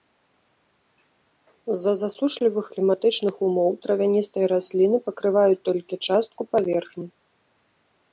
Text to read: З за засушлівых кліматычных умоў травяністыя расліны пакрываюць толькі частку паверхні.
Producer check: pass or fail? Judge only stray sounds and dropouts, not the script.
pass